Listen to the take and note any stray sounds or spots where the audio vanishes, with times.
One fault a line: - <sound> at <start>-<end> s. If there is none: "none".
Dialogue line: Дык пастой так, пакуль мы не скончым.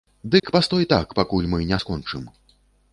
- dropout at 0.4-0.4 s